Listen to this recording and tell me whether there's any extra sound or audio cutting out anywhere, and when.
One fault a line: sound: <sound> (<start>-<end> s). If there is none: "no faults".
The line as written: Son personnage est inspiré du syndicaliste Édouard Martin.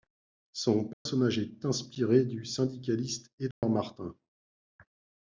sound: dropout (0.9-1.1 s)
sound: dropout (3.5-3.6 s)